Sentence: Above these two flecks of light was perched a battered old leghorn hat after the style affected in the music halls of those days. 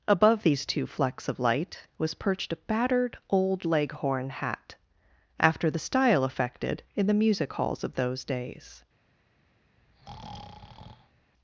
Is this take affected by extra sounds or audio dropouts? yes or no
yes